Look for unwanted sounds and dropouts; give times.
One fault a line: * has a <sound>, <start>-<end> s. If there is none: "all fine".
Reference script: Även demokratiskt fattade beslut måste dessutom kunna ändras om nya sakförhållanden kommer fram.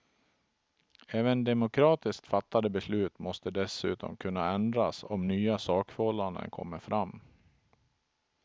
all fine